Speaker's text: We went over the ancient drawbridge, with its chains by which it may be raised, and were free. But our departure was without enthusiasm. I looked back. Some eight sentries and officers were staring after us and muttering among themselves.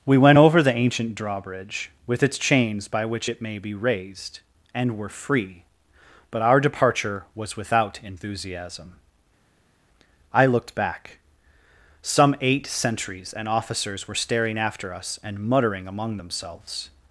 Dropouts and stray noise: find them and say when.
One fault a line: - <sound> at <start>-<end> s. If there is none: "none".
none